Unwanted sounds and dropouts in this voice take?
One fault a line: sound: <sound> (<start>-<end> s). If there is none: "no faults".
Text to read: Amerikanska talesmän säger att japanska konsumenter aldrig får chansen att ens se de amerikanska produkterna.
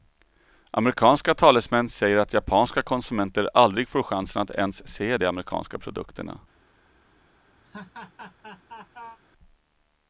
sound: laugh (7.6-9.2 s)